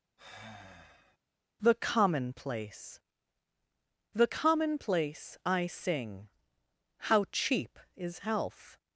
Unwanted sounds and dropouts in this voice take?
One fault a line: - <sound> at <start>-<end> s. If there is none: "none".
- sigh at 0.2-1.2 s